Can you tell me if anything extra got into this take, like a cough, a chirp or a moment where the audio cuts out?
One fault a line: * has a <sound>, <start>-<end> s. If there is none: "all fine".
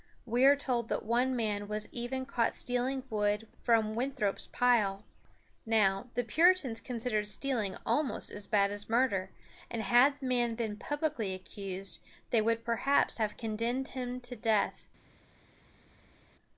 all fine